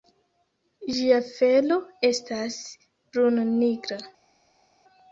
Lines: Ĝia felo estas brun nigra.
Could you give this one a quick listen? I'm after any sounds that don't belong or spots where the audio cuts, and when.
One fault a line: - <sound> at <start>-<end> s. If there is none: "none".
none